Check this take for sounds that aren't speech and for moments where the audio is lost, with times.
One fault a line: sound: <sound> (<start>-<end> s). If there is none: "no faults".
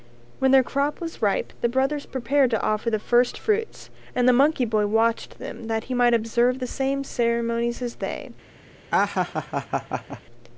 sound: laugh (8.9-10.2 s)